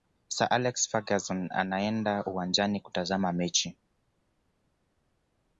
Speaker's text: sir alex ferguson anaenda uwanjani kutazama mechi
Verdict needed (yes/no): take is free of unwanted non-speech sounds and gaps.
yes